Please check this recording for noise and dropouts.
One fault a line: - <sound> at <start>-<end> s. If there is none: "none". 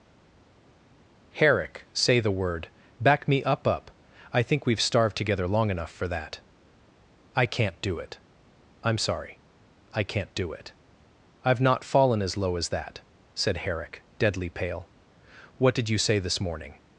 none